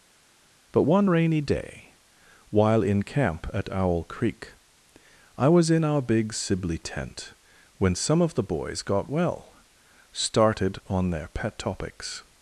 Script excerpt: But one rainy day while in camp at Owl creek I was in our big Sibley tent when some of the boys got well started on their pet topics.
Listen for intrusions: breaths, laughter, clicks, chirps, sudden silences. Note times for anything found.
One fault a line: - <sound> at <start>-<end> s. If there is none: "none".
none